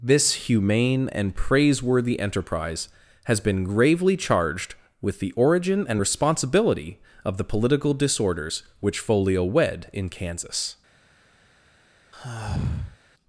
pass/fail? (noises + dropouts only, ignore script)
fail